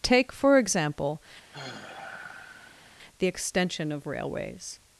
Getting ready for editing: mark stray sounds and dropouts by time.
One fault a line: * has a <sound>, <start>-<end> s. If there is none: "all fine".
* has a sigh, 1.5-3.0 s